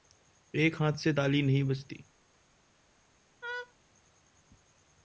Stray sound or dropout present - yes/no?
yes